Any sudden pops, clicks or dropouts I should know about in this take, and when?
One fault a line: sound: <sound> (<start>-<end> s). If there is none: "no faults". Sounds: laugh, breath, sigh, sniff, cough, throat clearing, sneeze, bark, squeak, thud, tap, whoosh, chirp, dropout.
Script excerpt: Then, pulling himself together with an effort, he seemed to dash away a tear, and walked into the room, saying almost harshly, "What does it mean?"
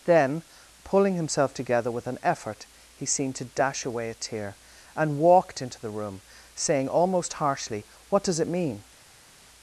no faults